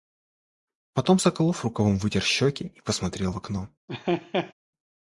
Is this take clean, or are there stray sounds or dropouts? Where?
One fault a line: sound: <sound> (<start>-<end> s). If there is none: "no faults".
sound: laugh (3.9-4.5 s)